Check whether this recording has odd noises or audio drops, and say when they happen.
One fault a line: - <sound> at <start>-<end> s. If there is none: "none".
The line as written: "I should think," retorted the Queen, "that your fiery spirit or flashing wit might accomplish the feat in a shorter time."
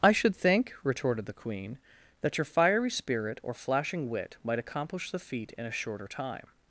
none